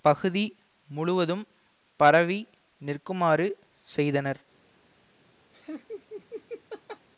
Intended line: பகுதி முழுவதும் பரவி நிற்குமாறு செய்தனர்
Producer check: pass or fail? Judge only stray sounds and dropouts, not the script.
fail